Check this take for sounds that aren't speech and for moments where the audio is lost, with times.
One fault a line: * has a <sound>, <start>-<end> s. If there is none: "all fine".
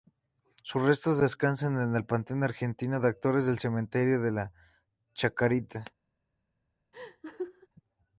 * has a laugh, 6.9-7.7 s